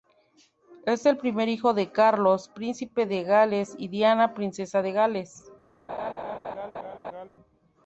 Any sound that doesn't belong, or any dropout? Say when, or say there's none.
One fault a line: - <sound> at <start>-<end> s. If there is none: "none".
- laugh at 5.9-7.3 s